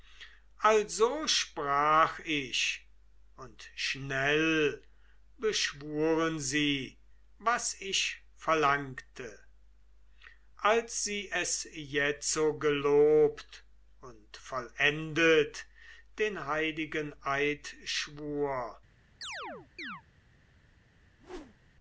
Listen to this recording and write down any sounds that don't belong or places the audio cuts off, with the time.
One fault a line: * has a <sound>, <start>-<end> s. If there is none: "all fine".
* has a chirp, 19.2-20.0 s
* has a whoosh, 21.2-21.7 s